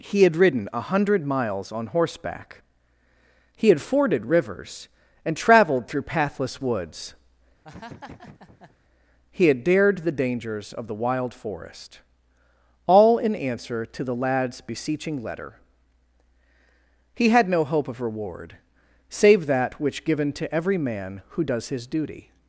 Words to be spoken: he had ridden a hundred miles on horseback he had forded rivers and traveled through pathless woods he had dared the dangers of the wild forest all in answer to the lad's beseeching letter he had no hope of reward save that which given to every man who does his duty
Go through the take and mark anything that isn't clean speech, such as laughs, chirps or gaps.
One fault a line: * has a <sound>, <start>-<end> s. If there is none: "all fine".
* has a laugh, 7.6-8.8 s